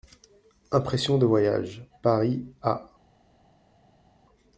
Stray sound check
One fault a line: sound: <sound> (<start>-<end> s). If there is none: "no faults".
no faults